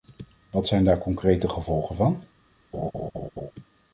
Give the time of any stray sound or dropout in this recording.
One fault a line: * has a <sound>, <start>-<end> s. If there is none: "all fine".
* has a laugh, 2.7-3.5 s